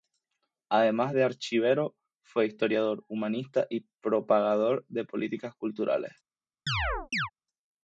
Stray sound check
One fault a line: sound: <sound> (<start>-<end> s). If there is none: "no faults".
sound: chirp (6.7-7.3 s)